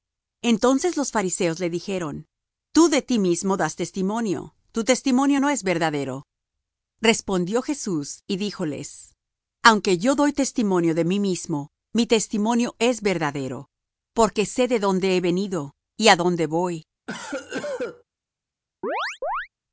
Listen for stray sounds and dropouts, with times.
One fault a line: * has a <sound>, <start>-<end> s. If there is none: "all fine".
* has a cough, 17.1-18.0 s
* has a chirp, 18.8-19.5 s